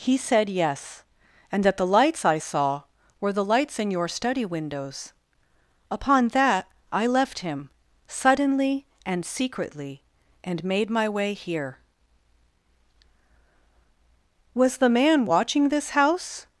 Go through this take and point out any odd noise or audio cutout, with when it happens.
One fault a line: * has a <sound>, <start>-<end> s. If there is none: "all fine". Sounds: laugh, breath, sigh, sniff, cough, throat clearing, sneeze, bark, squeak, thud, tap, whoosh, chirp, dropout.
all fine